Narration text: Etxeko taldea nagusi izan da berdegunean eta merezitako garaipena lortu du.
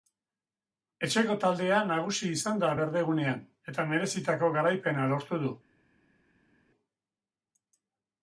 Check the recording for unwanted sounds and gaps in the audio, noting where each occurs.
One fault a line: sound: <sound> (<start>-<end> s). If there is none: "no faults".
no faults